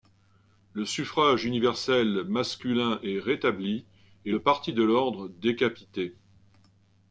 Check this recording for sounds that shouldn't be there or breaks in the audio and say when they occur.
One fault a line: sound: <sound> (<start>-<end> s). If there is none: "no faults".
no faults